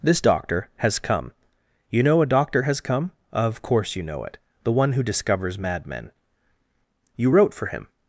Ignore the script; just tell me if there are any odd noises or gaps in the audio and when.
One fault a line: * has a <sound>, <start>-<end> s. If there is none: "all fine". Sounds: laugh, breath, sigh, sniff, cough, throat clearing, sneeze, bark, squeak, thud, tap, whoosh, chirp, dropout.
all fine